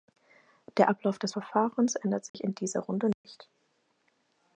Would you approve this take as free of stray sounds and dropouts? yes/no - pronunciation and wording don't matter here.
no